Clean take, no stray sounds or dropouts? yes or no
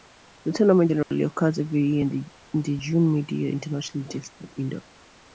no